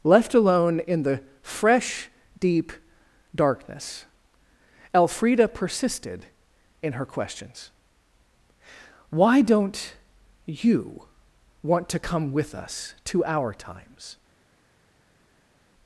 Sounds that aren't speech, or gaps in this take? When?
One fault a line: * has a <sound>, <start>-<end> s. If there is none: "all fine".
all fine